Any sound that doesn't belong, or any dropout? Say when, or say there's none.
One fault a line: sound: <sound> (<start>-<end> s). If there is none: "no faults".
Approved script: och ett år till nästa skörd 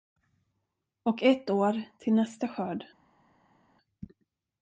no faults